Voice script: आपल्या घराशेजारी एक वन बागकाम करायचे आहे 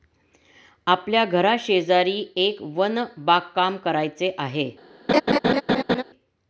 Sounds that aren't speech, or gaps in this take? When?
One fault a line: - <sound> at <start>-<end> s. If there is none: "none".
- laugh at 5.1-6.0 s